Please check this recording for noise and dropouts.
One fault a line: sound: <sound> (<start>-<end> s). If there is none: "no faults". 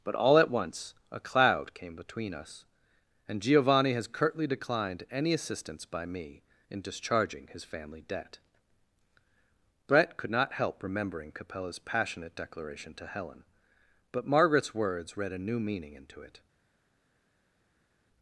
no faults